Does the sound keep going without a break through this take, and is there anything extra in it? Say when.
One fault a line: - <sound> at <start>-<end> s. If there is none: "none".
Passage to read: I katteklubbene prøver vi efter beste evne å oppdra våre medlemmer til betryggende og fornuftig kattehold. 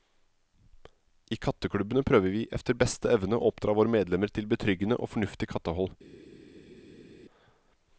none